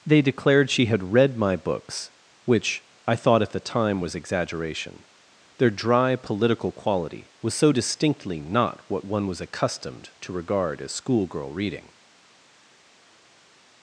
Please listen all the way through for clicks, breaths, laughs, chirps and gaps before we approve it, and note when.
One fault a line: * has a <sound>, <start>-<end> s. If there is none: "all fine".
all fine